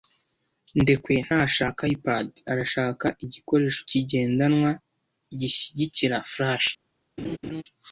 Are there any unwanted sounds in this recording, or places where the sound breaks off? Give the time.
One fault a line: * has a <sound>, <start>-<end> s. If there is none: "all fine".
* has a laugh, 7.2-7.6 s